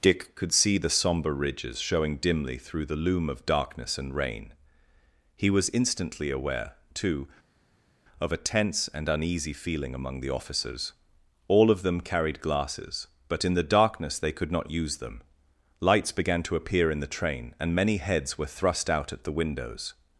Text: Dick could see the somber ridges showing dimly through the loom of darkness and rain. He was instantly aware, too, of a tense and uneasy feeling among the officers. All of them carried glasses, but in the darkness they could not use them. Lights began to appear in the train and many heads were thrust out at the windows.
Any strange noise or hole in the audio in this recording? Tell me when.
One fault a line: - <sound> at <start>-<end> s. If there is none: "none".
none